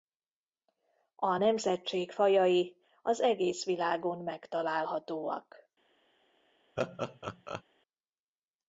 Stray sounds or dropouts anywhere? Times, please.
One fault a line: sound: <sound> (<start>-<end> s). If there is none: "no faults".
sound: laugh (6.8-7.6 s)